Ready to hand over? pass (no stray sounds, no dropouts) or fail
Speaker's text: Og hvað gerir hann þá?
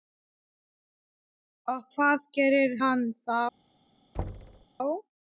fail